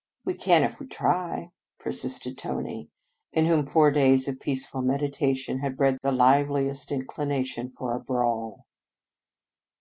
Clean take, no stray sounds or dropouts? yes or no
yes